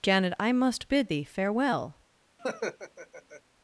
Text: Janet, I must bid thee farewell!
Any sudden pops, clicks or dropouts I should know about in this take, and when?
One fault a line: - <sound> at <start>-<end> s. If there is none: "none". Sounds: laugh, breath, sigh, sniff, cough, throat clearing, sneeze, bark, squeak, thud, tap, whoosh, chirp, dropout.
- laugh at 2.4-3.4 s